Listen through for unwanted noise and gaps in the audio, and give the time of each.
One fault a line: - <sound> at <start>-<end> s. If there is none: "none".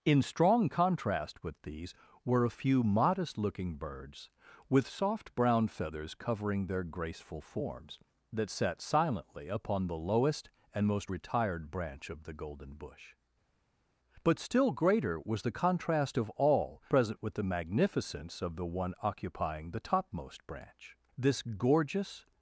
none